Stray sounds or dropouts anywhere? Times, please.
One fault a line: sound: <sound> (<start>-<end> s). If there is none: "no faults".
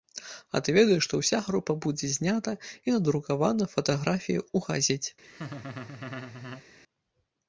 sound: laugh (5.2-6.6 s)